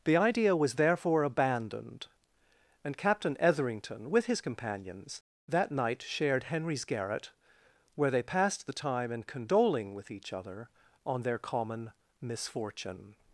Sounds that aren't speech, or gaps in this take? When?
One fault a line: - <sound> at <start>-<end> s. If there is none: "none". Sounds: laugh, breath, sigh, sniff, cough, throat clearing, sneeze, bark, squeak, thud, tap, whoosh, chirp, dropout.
none